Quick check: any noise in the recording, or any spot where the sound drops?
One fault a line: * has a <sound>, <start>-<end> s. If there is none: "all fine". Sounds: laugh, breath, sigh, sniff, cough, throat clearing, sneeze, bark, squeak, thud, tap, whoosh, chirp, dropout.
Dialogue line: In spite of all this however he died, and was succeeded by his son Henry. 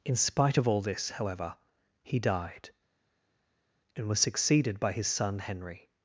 all fine